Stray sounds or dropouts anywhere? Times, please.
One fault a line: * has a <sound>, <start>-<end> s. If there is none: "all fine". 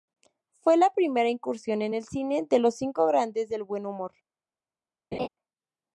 * has a laugh, 5.1-5.3 s